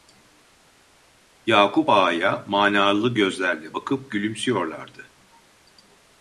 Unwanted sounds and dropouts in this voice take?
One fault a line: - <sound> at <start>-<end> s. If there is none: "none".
none